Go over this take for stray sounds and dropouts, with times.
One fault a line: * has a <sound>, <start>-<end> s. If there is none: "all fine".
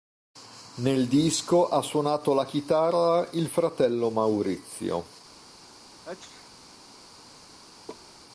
* has a sneeze, 6.1-6.5 s
* has a laugh, 7.9-8.1 s